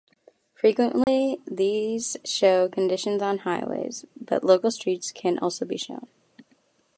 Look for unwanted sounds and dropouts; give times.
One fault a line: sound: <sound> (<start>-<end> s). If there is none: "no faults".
sound: dropout (1.0-1.1 s)